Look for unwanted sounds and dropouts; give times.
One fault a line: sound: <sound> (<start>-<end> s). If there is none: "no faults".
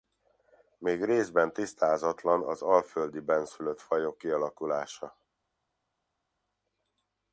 no faults